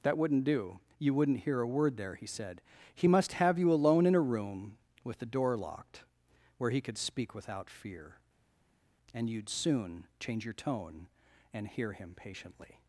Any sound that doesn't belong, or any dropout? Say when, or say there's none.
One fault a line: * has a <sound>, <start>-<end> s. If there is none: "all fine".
all fine